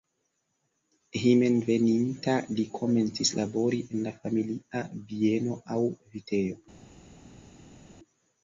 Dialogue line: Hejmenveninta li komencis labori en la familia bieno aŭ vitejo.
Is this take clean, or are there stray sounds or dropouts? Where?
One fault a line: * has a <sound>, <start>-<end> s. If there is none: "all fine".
all fine